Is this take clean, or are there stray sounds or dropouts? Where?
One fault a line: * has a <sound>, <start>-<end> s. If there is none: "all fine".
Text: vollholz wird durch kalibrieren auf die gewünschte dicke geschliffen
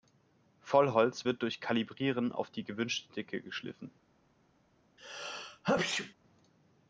* has a sneeze, 5.0-6.1 s